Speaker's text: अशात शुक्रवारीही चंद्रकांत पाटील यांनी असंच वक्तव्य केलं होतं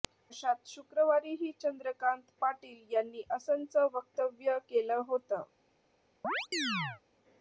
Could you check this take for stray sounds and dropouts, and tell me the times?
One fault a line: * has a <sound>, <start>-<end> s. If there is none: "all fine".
* has a chirp, 6.2-7.0 s